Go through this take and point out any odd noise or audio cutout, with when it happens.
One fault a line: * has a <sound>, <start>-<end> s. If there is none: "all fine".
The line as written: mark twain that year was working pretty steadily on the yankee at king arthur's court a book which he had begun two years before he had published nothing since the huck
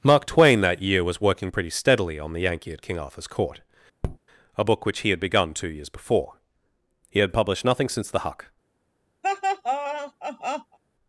* has a tap, 4.0-4.2 s
* has a laugh, 9.2-10.8 s